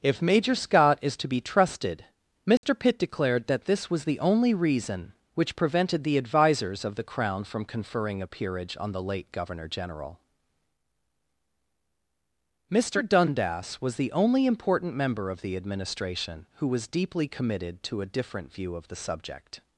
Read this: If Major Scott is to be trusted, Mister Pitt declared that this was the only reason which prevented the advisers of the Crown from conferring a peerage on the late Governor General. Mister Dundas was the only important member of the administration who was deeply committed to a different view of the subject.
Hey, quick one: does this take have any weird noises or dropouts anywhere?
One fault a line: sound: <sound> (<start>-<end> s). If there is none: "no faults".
sound: dropout (2.6-2.6 s)